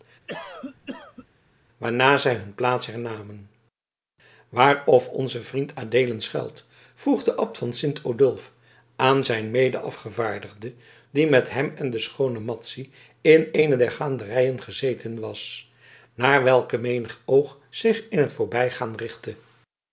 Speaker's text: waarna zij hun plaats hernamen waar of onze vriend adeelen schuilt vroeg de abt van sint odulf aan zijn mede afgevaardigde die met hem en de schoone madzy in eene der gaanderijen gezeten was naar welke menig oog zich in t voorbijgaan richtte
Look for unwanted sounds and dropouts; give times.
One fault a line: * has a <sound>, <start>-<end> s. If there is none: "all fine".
* has a cough, 0.3-1.3 s